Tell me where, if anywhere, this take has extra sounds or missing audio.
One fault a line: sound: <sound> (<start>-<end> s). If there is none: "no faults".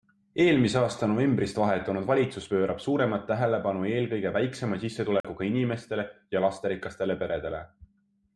sound: dropout (5.2-5.2 s)